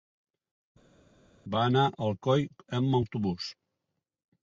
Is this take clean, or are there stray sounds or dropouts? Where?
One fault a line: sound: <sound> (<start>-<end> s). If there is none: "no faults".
no faults